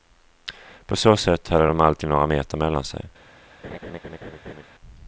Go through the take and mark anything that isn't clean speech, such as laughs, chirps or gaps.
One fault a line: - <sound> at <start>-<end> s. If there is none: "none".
- laugh at 3.6-4.6 s